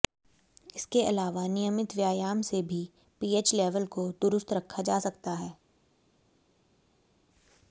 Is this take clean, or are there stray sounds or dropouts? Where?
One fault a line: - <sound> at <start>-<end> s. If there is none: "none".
none